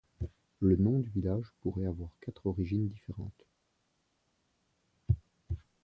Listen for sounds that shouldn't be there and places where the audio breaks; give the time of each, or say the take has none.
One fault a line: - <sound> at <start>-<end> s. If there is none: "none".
none